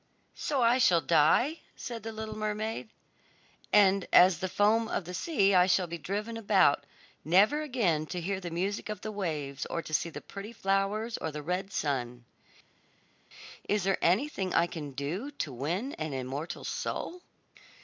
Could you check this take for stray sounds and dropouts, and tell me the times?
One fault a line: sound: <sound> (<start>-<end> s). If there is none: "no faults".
no faults